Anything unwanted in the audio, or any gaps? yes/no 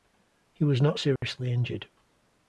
yes